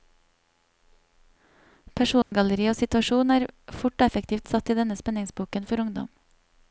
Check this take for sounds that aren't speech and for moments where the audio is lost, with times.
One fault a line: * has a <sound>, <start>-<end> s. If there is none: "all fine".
* has a dropout, 2.2-2.3 s